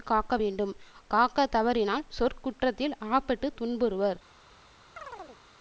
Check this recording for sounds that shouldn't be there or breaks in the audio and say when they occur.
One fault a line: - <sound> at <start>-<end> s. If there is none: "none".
- chirp at 5.0-5.4 s